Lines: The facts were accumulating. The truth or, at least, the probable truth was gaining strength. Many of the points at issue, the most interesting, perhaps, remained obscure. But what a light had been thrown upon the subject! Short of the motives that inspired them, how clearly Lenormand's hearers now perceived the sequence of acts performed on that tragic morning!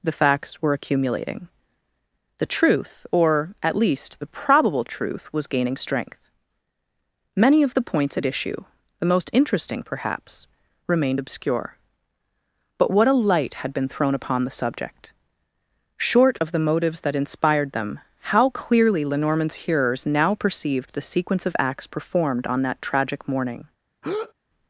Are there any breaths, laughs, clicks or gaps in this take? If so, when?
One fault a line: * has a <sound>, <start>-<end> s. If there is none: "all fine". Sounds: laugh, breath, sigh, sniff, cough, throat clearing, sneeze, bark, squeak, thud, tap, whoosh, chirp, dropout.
* has a breath, 24.0-24.3 s